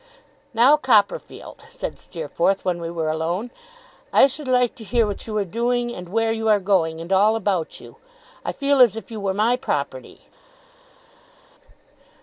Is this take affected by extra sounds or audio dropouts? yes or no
no